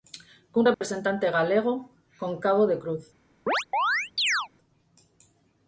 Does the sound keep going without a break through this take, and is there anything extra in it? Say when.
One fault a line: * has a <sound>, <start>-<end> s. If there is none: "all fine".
* has a dropout, 0.7-0.8 s
* has a chirp, 3.5-4.5 s